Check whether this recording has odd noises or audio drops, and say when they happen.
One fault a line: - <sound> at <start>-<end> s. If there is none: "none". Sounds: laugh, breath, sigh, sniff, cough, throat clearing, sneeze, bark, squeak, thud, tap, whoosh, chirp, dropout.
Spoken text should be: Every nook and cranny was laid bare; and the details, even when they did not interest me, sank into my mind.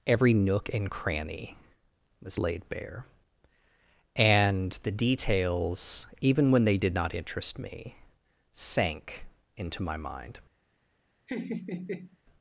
- laugh at 11.3-12.2 s